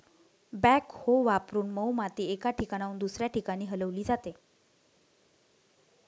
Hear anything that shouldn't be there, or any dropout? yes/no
no